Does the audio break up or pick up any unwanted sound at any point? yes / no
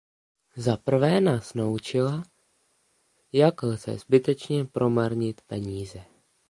no